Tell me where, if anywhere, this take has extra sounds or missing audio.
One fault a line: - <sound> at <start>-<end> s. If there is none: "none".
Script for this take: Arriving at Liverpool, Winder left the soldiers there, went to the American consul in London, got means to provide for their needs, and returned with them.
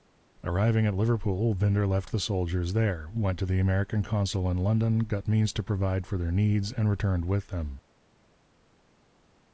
none